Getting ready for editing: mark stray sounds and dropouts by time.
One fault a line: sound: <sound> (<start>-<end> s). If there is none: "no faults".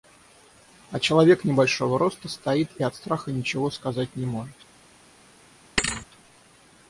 sound: thud (5.8-6.1 s)